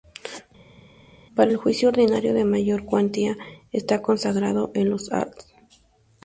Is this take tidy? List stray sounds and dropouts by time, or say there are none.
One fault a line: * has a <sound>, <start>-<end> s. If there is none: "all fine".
all fine